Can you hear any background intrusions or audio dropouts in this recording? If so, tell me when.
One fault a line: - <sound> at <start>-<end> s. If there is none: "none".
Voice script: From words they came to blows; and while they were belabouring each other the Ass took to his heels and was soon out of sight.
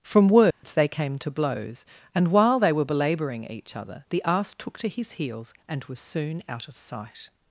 - dropout at 0.5-0.6 s